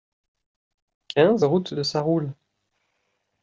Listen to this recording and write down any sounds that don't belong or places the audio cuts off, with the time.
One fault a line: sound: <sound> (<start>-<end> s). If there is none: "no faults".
no faults